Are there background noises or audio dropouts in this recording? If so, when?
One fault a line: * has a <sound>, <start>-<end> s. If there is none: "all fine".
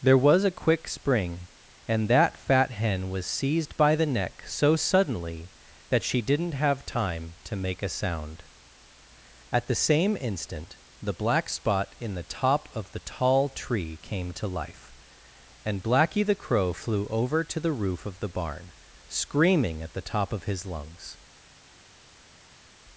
all fine